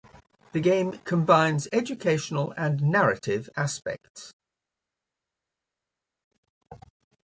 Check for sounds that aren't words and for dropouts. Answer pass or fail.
pass